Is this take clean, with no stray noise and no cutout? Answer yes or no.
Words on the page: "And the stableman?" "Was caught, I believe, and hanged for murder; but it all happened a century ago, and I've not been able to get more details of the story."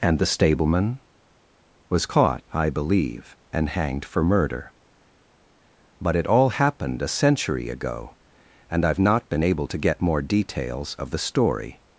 yes